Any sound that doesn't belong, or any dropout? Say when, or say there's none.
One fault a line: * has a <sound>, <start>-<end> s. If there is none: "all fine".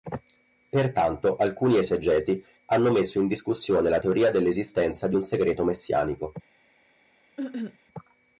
* has a cough, 7.4-7.8 s